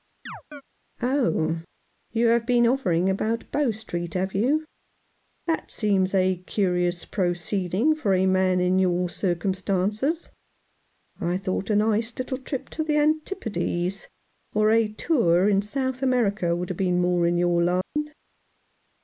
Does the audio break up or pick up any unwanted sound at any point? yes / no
yes